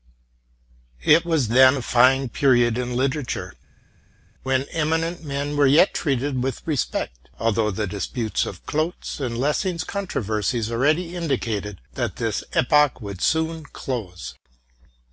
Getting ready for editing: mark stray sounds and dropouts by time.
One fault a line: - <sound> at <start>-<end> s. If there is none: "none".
none